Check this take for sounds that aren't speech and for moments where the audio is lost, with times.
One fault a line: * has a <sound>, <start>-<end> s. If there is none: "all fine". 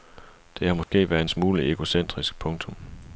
* has a dropout, 0.8-0.9 s